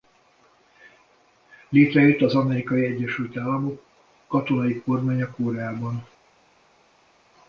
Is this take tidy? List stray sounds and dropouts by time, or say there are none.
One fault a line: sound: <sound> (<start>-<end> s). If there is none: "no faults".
no faults